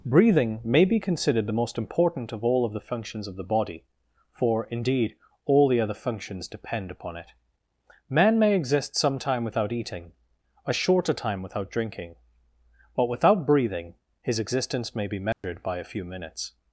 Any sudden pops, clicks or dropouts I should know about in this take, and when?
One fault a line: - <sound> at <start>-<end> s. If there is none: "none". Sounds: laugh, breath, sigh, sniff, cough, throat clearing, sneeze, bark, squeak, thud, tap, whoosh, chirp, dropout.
- dropout at 15.3-15.4 s